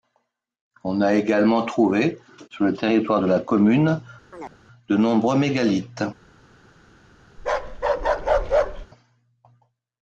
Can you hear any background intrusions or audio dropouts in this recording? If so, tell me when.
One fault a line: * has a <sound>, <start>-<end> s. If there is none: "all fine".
* has a chirp, 4.3-4.6 s
* has a bark, 7.4-8.9 s